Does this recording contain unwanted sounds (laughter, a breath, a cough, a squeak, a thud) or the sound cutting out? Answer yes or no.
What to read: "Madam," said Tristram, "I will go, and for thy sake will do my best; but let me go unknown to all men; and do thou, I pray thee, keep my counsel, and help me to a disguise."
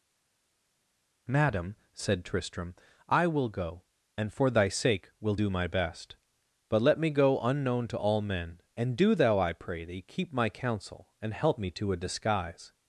no